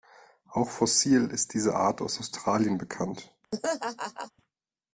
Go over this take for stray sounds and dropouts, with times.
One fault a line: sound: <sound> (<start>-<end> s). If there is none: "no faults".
sound: laugh (3.5-4.3 s)